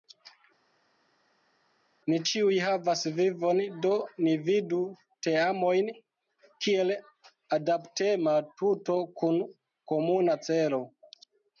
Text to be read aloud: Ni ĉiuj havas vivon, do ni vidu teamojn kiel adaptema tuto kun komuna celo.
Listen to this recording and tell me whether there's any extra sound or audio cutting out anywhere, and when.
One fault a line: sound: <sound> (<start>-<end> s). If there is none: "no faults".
no faults